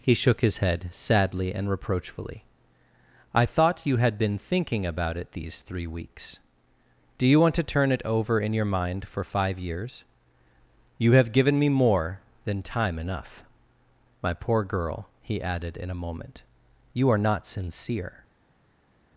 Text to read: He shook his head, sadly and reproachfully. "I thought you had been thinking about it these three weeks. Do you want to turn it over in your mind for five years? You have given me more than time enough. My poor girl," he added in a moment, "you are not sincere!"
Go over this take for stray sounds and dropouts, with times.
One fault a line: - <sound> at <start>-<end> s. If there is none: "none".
none